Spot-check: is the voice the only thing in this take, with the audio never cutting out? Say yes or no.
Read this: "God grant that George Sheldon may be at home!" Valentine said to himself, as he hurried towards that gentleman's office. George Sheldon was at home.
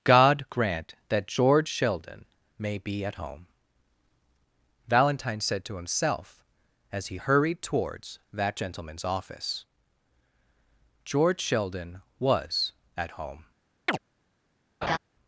no